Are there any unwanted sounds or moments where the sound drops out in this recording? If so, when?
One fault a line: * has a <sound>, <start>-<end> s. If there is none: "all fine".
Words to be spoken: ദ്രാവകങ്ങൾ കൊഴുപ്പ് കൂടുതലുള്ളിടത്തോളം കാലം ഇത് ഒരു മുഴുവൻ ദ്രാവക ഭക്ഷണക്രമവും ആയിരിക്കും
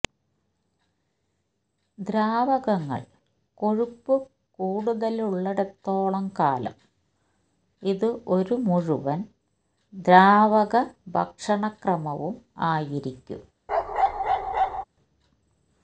* has a bark, 13.7-14.8 s